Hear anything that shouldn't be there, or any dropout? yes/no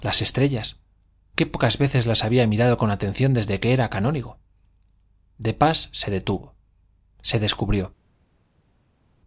no